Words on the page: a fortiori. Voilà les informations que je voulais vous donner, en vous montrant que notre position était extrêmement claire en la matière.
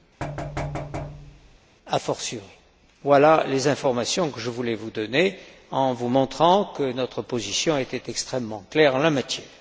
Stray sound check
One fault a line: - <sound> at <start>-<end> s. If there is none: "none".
- thud at 0.2-1.6 s